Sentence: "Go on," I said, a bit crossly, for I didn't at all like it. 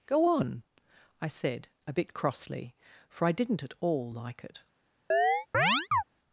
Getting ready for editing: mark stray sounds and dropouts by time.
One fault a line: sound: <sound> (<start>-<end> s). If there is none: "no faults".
sound: chirp (5.1-6.0 s)